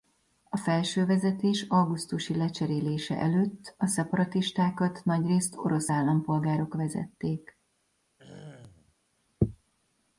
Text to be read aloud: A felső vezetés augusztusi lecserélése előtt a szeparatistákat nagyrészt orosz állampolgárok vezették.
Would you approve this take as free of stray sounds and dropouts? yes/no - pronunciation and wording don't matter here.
no